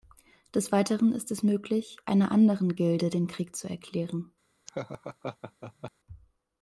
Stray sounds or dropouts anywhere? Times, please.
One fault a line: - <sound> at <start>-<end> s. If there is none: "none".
- laugh at 4.7-5.9 s